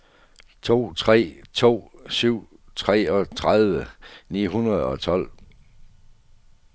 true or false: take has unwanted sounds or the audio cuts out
false